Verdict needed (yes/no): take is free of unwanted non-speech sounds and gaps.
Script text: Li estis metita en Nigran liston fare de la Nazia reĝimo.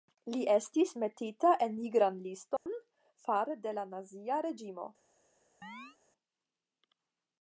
no